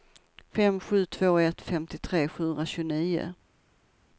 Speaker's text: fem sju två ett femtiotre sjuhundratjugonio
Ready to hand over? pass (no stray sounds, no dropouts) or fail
pass